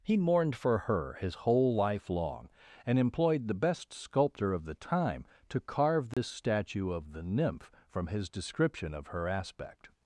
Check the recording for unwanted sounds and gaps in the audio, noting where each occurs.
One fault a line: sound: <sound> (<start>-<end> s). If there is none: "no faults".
sound: dropout (6.1-6.2 s)